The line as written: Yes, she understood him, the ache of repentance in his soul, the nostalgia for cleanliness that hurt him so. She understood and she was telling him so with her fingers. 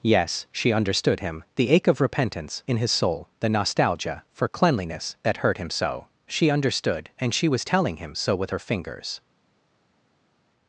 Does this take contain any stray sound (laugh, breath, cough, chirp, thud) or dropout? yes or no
no